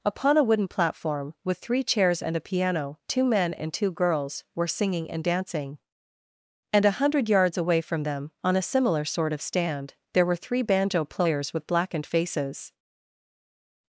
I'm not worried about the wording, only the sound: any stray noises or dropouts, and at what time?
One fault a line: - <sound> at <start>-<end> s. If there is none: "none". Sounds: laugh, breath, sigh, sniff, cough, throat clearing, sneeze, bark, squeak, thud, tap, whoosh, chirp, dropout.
none